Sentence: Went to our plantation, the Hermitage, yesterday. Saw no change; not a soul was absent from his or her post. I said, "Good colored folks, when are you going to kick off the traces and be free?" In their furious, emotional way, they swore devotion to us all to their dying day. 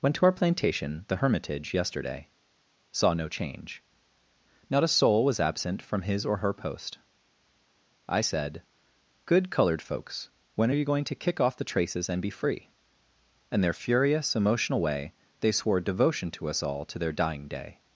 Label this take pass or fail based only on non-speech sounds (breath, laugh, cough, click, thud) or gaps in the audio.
pass